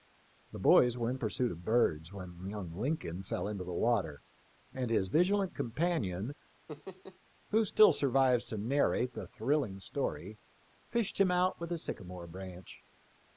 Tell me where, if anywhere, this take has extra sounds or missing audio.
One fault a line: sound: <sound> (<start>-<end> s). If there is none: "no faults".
sound: laugh (6.7-7.2 s)